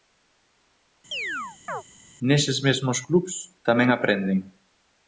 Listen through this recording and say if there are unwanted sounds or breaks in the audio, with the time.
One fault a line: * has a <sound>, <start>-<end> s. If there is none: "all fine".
* has a chirp, 1.1-1.8 s